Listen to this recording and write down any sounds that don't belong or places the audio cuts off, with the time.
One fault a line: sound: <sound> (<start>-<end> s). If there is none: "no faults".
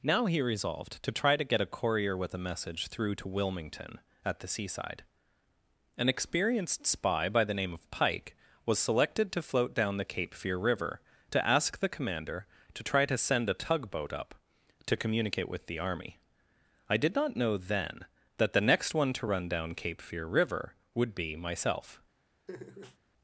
sound: laugh (22.5-23.0 s)